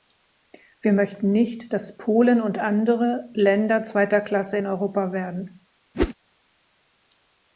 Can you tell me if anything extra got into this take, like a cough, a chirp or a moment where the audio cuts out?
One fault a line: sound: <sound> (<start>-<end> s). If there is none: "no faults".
sound: whoosh (5.9-6.1 s)